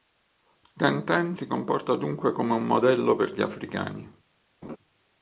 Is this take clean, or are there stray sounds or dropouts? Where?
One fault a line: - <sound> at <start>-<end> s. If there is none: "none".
- laugh at 4.6-4.8 s